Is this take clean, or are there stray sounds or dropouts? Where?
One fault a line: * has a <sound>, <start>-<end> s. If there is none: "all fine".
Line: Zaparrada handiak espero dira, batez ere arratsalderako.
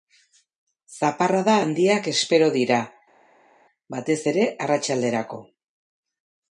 all fine